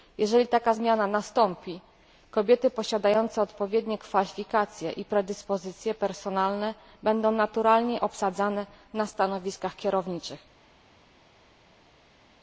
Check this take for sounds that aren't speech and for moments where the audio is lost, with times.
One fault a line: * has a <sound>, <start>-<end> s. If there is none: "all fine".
all fine